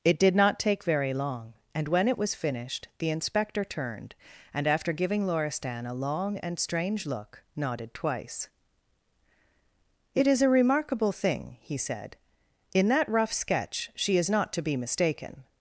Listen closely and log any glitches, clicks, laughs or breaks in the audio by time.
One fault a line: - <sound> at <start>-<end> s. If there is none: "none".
none